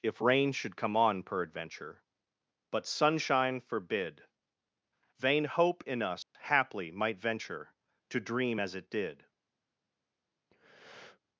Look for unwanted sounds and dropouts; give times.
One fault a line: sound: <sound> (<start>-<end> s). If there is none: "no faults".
sound: dropout (6.2-6.3 s)
sound: breath (10.5-11.2 s)